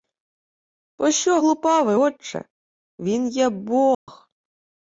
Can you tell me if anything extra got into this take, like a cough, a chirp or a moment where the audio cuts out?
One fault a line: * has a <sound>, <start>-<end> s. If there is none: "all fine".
* has a dropout, 3.9-4.1 s